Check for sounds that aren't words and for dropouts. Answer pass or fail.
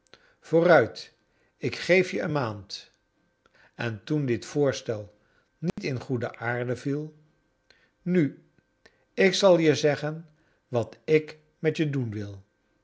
fail